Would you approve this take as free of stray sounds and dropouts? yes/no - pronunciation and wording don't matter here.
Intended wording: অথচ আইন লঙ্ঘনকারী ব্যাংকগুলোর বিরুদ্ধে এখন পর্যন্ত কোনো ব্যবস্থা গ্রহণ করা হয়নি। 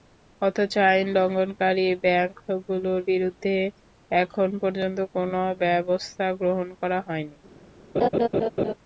no